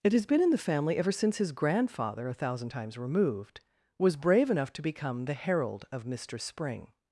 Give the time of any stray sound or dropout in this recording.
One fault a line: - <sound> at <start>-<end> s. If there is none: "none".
none